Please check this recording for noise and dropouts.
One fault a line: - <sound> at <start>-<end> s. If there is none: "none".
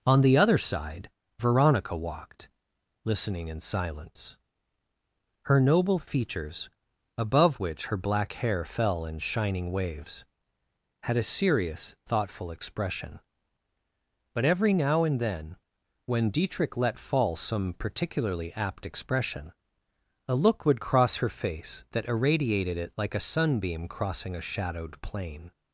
none